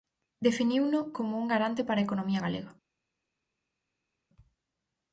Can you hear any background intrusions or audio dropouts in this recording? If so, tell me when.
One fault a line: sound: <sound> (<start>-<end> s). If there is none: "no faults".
no faults